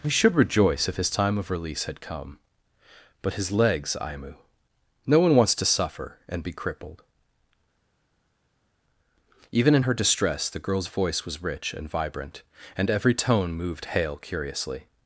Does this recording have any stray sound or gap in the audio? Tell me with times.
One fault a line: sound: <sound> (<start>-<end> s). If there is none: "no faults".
no faults